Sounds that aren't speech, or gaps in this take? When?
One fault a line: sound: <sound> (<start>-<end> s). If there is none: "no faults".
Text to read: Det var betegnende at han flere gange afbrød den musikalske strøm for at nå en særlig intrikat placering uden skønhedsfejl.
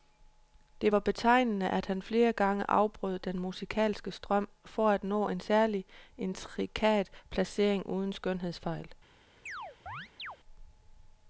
sound: chirp (9.5-10.4 s)